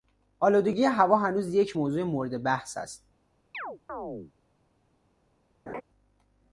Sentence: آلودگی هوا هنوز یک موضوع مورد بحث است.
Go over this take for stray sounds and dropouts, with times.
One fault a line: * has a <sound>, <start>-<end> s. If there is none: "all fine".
* has a chirp, 3.5-4.3 s
* has a laugh, 5.7-5.8 s